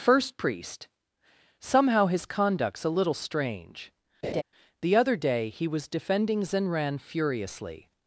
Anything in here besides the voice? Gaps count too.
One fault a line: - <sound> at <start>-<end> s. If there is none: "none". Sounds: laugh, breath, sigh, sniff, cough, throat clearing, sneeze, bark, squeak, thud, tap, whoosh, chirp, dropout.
- laugh at 4.2-4.4 s